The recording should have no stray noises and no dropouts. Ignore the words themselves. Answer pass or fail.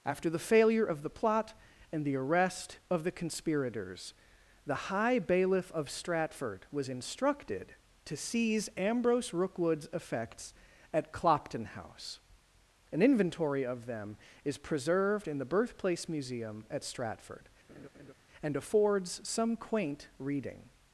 fail